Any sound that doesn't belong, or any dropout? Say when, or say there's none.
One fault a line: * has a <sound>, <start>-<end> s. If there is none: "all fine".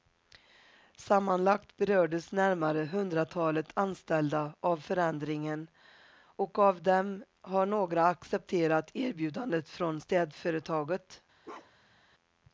* has a bark, 11.4-12.0 s